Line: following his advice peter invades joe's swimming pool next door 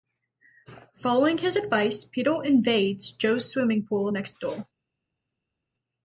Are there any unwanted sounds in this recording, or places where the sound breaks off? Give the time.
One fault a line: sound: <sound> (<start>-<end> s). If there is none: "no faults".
no faults